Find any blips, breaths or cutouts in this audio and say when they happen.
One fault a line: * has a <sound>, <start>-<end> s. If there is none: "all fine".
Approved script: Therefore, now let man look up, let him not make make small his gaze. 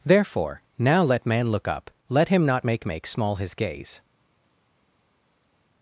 all fine